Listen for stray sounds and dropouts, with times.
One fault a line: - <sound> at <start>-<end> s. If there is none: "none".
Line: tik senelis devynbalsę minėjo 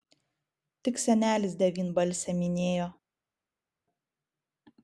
none